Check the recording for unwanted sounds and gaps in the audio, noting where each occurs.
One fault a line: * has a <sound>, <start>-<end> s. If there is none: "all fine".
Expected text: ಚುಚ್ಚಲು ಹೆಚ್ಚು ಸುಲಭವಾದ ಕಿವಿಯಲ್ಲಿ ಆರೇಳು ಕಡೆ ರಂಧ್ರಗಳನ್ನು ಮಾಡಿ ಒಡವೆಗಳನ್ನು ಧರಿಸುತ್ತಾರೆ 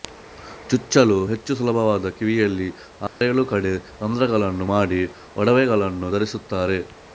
* has a dropout, 3.1-3.2 s